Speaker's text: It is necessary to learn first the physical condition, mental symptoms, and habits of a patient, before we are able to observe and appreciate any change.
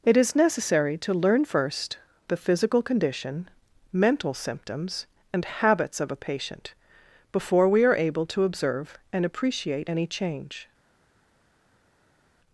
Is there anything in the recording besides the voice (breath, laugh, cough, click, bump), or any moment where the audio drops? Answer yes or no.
no